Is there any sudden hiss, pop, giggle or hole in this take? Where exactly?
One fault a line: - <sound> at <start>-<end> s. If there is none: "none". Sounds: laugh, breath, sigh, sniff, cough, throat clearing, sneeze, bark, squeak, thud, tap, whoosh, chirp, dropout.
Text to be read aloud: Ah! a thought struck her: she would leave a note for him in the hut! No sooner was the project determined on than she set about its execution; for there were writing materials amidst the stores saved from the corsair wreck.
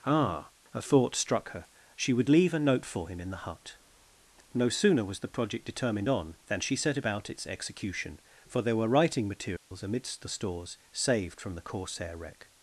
- dropout at 9.6-9.7 s